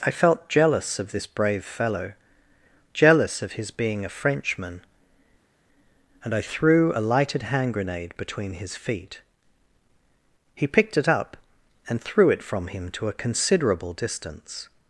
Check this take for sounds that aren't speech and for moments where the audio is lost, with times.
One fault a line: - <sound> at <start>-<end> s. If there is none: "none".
none